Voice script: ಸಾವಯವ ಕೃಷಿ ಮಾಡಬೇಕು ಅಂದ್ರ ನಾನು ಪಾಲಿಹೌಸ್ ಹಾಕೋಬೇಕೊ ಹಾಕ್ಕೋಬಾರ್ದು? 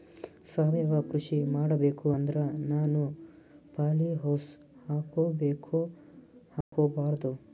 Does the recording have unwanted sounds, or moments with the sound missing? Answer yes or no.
yes